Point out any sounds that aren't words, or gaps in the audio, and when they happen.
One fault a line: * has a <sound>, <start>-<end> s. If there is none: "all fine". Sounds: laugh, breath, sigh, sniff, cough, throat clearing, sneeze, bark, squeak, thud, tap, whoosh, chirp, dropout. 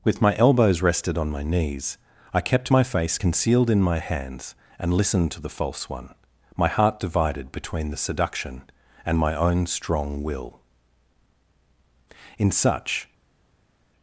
all fine